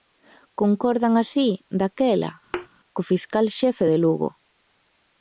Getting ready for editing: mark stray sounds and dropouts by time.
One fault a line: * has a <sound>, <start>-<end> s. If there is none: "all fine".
* has a thud, 2.5-2.7 s